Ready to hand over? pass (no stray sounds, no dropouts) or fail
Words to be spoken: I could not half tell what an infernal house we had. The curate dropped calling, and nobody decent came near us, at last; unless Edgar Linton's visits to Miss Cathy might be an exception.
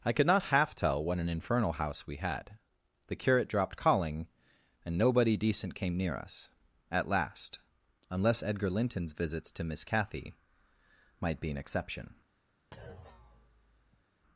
fail